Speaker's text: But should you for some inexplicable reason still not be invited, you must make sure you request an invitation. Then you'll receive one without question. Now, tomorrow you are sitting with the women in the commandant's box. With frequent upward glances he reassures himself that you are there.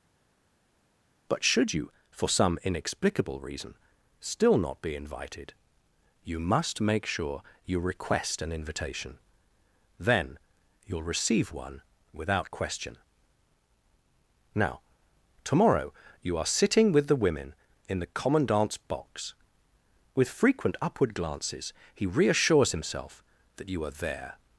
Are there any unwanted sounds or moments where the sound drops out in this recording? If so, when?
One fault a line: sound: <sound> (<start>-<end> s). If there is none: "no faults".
no faults